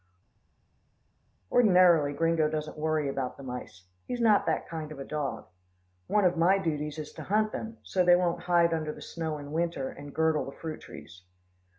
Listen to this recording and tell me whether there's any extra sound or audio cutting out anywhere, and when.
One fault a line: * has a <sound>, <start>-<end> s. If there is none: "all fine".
all fine